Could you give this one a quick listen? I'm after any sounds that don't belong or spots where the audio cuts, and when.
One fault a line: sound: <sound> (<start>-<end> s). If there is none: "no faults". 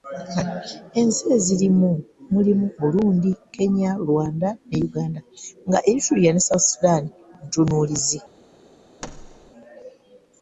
sound: thud (9.0-9.5 s)